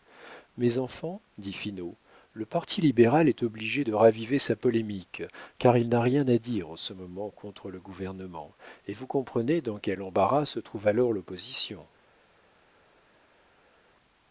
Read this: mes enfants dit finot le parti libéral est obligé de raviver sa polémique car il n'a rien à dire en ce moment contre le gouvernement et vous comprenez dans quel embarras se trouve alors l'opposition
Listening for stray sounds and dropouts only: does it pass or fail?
pass